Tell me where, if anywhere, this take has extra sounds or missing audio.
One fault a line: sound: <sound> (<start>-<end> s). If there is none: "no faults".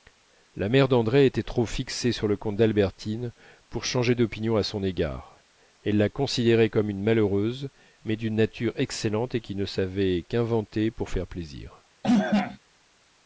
sound: cough (12.0-12.6 s)